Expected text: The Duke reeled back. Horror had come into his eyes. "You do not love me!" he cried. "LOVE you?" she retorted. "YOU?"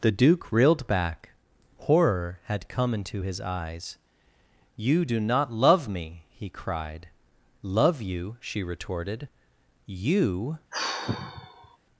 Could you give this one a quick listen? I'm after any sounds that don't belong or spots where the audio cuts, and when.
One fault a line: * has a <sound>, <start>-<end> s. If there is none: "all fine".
* has a sigh, 10.7-11.8 s